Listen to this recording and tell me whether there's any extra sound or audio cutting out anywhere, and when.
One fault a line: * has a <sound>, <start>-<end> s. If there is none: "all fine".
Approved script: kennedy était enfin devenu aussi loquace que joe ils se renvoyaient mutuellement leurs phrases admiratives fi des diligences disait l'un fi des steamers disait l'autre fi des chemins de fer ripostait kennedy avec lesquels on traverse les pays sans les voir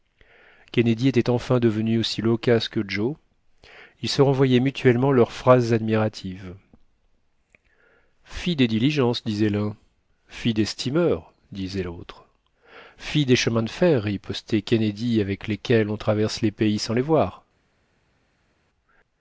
all fine